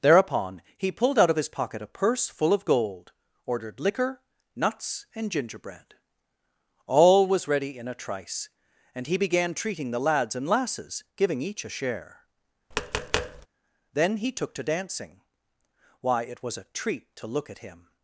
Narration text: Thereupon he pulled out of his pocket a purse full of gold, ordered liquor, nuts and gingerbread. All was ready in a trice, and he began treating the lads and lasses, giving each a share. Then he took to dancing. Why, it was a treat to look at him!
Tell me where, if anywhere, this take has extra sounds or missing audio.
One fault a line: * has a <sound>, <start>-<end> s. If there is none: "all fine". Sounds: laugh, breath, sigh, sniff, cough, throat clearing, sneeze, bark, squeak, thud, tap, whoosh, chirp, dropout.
* has a tap, 12.7-13.5 s